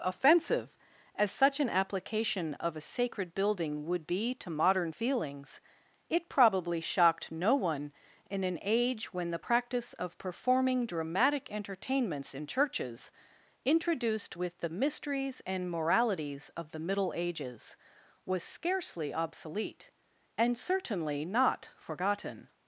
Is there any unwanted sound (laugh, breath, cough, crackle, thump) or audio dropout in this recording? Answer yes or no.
no